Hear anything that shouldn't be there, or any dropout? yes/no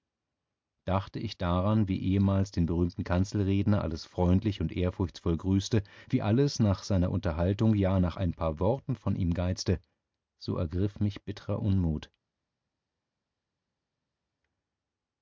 no